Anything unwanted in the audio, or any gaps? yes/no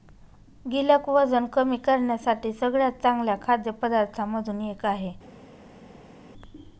no